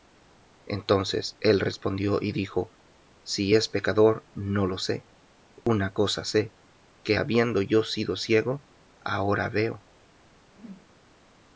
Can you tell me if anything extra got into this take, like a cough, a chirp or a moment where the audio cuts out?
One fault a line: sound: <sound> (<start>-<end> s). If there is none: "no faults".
sound: dropout (5.6-5.7 s)
sound: whoosh (10.5-11.0 s)